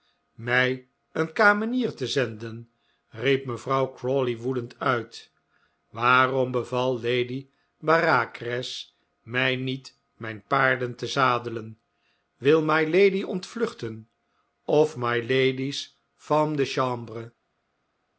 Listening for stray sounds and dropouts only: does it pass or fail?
pass